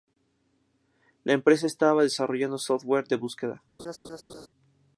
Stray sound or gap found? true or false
true